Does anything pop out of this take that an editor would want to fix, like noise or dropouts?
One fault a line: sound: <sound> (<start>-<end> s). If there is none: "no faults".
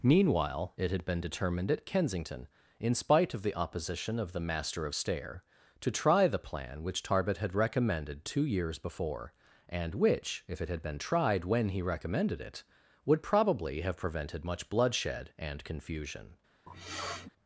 sound: sniff (16.7-17.3 s)